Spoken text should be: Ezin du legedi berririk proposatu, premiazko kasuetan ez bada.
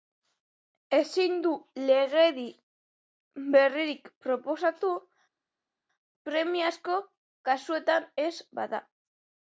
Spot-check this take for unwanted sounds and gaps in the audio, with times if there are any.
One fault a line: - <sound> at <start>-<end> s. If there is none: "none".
none